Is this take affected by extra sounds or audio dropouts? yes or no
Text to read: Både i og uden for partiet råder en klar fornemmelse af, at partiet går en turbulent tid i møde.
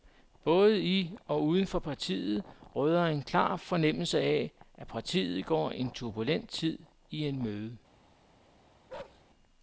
yes